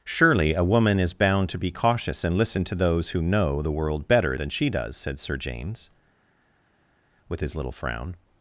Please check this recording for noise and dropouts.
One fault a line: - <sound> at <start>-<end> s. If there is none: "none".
none